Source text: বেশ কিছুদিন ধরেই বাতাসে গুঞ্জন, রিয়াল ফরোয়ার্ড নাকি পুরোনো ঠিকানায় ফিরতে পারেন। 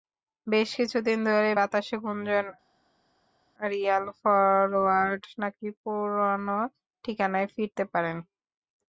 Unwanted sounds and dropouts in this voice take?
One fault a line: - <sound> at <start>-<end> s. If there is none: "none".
none